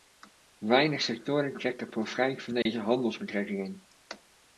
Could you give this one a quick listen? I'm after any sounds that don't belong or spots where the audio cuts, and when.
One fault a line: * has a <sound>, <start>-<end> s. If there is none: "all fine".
* has a dropout, 2.6-2.7 s